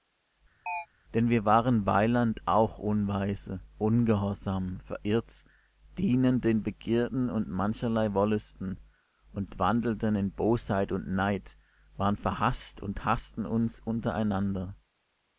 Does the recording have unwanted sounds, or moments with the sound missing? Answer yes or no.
yes